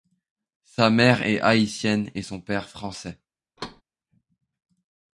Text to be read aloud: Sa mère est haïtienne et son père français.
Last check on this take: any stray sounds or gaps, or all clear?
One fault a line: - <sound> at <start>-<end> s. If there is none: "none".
- thud at 3.6-3.8 s